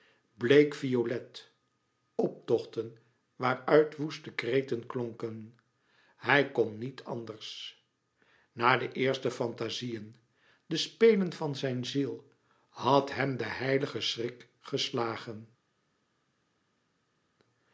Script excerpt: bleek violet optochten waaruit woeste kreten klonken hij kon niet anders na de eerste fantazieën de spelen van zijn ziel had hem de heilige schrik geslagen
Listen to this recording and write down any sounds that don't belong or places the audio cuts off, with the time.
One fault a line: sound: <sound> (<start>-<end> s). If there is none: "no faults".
no faults